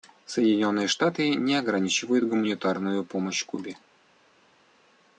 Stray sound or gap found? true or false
false